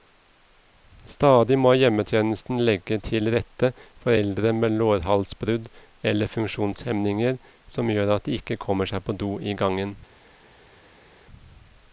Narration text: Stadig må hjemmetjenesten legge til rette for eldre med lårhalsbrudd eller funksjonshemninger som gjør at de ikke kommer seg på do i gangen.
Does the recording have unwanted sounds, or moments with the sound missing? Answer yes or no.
no